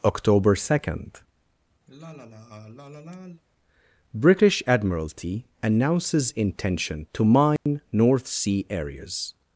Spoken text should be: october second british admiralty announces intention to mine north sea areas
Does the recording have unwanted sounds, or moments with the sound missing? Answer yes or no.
yes